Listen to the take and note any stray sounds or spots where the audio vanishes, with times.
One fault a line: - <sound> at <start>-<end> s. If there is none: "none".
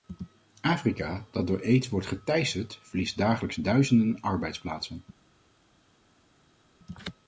none